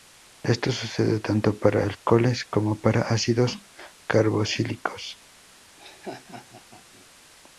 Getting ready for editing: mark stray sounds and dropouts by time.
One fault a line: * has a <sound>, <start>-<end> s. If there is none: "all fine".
* has a laugh, 5.8-7.1 s